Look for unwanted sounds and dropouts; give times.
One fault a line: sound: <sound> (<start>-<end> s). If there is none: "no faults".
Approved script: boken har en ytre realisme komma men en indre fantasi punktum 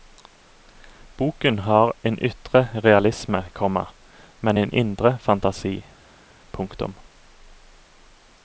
no faults